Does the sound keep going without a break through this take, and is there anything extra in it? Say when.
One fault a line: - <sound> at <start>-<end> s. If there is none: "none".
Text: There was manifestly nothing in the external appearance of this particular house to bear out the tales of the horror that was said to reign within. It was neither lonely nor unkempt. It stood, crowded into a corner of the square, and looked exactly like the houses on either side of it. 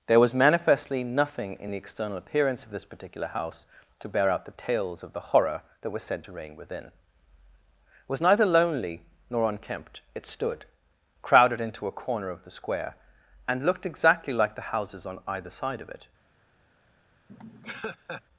- laugh at 17.3-18.2 s